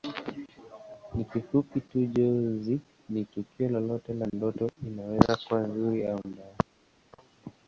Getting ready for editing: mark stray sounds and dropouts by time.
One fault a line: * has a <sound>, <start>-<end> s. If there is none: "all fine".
all fine